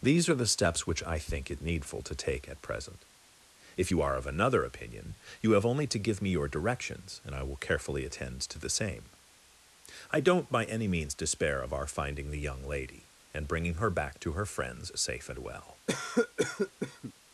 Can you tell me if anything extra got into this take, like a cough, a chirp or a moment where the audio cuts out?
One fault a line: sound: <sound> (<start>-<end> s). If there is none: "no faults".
sound: cough (15.9-17.1 s)